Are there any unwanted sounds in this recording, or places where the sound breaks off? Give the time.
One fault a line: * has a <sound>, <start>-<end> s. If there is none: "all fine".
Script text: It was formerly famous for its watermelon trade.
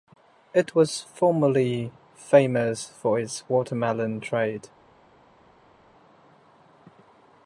all fine